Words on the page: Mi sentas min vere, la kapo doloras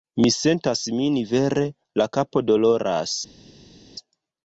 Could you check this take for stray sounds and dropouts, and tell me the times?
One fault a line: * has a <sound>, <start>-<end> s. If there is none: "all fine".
all fine